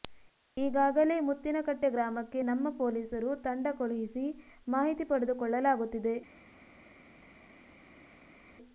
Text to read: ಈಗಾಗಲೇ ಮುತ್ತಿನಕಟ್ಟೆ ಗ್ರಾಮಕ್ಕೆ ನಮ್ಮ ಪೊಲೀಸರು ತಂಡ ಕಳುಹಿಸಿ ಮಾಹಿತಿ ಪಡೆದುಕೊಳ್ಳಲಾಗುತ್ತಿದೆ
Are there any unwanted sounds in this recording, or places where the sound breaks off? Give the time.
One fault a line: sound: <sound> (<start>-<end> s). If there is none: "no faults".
no faults